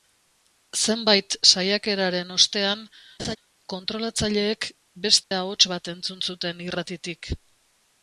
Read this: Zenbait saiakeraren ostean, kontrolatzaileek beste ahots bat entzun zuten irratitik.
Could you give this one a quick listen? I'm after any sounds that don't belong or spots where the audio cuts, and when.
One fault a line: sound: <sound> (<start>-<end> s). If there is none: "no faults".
sound: laugh (3.2-3.4 s)
sound: dropout (5.2-5.3 s)